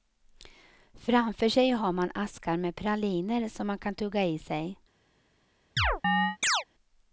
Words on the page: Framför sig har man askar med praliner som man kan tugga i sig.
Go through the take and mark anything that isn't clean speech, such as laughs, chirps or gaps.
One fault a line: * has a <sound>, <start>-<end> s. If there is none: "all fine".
* has a chirp, 5.8-6.6 s